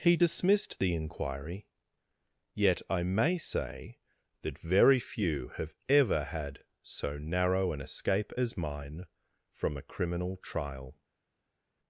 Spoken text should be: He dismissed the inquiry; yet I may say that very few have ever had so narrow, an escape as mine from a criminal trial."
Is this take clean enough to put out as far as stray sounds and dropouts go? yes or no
yes